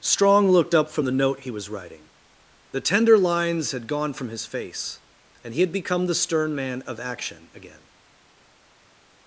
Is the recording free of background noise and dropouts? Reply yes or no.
yes